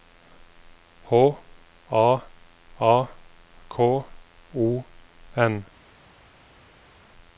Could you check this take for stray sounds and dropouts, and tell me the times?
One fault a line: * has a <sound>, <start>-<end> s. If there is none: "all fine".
all fine